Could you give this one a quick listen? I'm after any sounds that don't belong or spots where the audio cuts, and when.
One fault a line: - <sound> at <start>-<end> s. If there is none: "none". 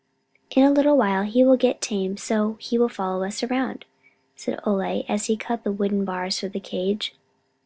none